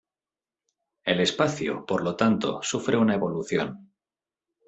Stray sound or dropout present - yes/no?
no